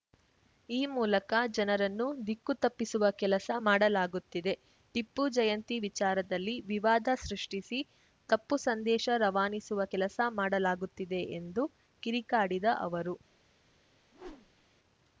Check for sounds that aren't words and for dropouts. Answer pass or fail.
fail